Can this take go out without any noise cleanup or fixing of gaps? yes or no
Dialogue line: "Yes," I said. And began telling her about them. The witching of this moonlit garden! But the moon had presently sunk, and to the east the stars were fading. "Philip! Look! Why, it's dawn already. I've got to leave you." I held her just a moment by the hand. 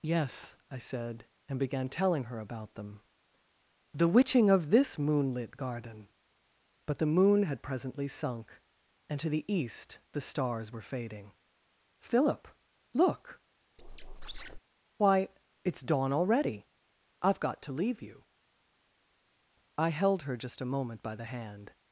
no